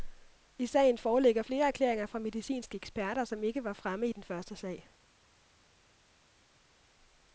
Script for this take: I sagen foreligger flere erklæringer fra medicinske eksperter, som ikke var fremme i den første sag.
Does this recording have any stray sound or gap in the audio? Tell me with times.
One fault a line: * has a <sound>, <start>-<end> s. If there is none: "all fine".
all fine